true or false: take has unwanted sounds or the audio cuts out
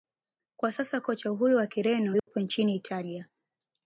true